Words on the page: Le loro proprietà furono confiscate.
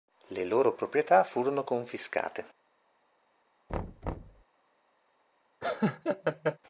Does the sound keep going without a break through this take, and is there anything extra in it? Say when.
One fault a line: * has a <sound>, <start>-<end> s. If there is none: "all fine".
* has a thud, 3.7-4.4 s
* has a laugh, 5.6-6.6 s